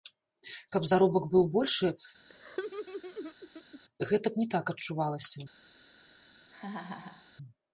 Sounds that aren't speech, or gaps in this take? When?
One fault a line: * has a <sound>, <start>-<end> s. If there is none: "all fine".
* has a laugh, 2.3-3.8 s
* has a laugh, 6.5-7.3 s